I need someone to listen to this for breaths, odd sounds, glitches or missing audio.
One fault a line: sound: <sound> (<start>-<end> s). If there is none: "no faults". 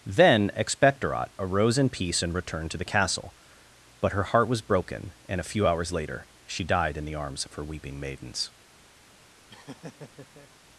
sound: laugh (9.5-10.5 s)